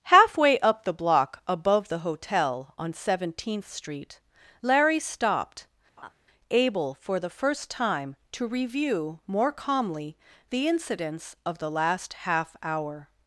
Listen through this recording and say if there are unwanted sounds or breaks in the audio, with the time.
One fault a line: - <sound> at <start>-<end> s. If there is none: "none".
- laugh at 6.0-6.1 s